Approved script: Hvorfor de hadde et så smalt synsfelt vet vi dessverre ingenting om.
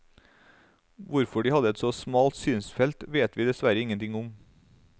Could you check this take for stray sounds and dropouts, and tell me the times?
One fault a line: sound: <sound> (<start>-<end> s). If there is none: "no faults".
no faults